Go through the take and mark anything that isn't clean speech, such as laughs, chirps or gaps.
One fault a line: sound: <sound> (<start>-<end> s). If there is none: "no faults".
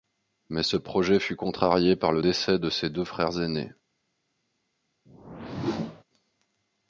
sound: whoosh (5.1-6.0 s)